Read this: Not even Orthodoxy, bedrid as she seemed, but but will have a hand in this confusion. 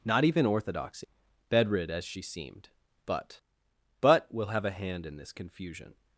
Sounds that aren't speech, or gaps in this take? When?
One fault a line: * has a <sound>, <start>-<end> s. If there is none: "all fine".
all fine